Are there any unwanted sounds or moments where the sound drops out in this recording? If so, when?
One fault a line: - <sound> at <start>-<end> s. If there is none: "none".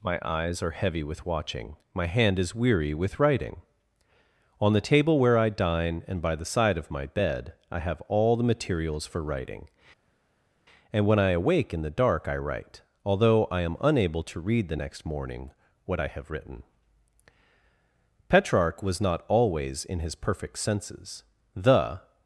none